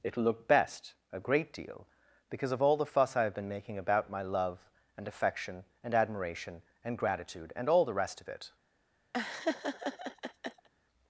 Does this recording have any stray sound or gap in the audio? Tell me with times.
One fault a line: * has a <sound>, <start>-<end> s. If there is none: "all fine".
* has a laugh, 9.1-10.7 s